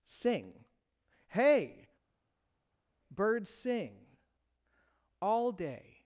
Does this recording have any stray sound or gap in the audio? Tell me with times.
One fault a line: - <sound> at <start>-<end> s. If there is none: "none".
none